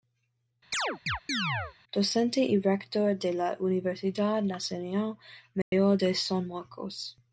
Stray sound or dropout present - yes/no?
yes